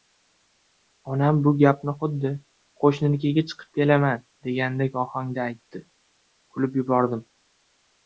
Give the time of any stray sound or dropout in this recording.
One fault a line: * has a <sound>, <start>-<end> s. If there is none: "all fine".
all fine